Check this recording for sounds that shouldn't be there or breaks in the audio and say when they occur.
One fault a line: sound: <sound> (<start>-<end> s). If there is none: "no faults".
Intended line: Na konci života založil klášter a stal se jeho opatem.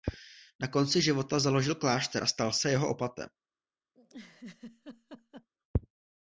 sound: laugh (3.9-5.5 s)